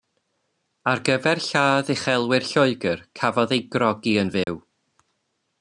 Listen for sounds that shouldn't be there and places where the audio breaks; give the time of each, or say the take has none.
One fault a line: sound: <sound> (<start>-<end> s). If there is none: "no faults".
sound: dropout (4.4-4.5 s)